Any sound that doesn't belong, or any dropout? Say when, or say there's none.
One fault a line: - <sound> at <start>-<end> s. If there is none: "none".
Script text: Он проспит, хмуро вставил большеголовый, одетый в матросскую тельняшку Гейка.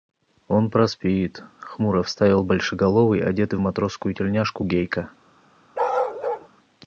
- bark at 5.7-6.5 s